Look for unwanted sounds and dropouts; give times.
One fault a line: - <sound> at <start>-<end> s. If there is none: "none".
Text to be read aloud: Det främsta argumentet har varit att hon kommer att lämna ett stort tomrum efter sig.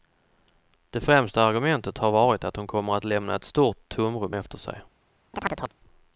- chirp at 5.3-5.7 s